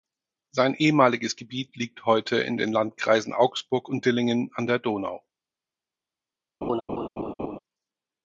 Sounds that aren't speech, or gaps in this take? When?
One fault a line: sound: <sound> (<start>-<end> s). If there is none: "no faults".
sound: laugh (6.6-7.6 s)